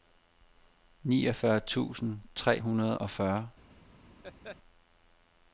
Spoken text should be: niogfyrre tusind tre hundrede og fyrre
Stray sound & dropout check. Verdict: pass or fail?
fail